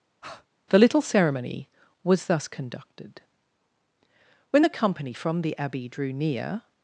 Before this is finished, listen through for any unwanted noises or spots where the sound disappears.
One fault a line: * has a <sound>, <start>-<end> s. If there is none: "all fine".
* has a breath, 0.2-0.5 s